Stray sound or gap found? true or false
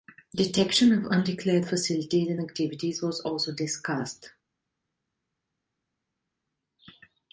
false